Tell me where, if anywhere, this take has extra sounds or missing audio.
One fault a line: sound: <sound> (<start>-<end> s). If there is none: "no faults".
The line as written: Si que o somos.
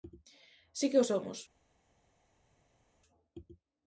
no faults